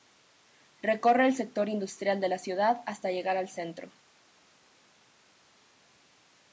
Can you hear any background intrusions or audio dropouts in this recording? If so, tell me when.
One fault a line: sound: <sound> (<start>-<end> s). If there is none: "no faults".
no faults